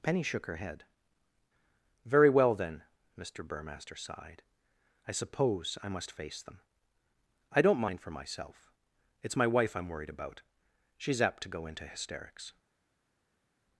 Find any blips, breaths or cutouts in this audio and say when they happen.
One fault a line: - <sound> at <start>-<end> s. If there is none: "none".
none